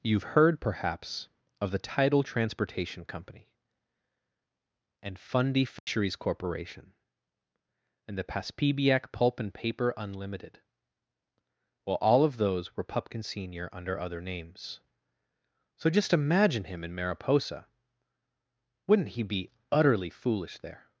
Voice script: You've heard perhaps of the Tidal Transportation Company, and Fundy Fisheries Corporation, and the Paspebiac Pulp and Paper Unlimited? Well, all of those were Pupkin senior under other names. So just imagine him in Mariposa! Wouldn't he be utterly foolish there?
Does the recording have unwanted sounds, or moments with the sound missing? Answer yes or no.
yes